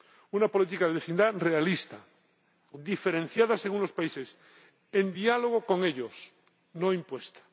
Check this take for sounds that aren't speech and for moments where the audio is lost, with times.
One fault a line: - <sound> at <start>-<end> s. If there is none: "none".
none